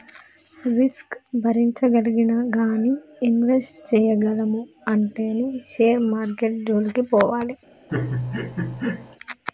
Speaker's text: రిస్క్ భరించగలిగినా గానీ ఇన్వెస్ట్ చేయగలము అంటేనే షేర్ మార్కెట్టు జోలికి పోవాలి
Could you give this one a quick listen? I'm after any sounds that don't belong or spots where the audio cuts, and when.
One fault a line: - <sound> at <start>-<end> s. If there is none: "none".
- laugh at 7.9-9.2 s